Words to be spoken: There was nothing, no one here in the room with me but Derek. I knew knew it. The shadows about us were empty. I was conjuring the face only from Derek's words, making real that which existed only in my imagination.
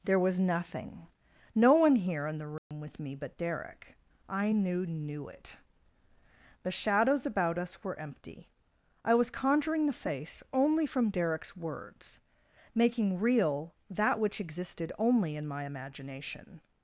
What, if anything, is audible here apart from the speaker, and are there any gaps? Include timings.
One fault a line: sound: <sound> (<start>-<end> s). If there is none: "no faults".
sound: dropout (2.6-2.7 s)